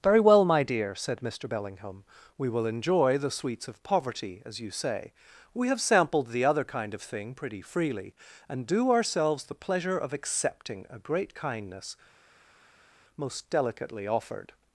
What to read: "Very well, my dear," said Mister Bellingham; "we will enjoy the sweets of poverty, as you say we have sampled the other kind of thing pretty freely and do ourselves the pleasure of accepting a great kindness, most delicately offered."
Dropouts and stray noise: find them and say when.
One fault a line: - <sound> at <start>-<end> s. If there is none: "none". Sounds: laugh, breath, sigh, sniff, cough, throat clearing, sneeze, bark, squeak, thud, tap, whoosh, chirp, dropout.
none